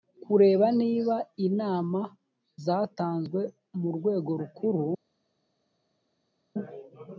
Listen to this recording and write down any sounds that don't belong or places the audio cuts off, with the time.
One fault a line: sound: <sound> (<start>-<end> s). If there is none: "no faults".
no faults